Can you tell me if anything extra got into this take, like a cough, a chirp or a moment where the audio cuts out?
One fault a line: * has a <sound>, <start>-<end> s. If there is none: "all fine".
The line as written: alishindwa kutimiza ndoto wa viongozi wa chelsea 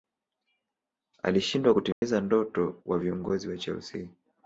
* has a dropout, 1.9-2.0 s